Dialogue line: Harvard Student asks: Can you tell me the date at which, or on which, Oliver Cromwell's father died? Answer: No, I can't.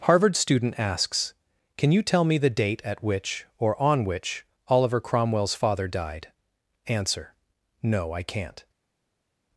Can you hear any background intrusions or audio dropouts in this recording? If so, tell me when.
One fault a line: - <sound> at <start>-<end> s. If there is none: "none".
none